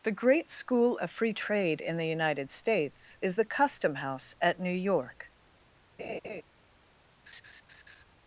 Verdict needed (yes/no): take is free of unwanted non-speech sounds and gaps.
no